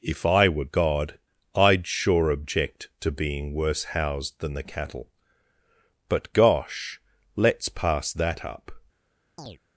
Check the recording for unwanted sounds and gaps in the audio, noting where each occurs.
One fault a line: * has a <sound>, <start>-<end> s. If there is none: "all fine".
* has a chirp, 9.4-9.6 s